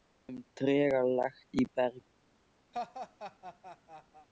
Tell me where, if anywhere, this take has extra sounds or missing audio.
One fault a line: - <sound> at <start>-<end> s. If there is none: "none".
- laugh at 2.7-4.3 s